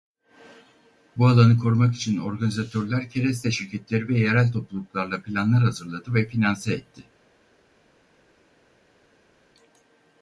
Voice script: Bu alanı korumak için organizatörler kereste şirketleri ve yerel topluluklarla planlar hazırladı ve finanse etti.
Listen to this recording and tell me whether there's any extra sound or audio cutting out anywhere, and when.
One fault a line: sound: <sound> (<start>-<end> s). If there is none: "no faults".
no faults